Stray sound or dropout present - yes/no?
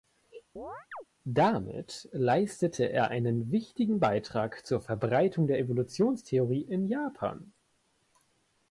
yes